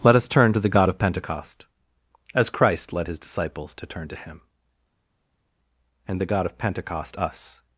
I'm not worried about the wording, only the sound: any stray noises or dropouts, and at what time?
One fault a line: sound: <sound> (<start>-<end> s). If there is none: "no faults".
no faults